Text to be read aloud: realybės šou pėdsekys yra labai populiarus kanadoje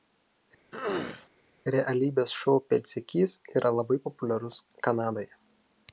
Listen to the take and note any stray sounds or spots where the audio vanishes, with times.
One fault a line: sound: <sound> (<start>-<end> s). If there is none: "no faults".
sound: throat clearing (0.7-1.3 s)